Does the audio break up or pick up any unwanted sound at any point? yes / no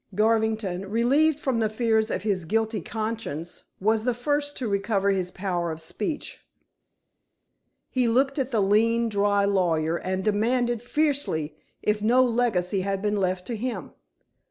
no